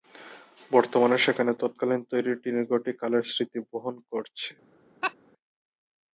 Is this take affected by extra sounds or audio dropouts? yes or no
yes